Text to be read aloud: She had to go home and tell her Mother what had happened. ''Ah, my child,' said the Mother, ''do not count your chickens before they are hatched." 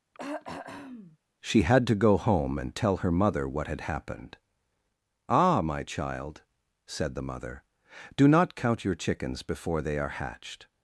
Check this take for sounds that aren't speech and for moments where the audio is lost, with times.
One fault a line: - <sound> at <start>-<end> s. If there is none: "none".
- throat clearing at 0.1-1.2 s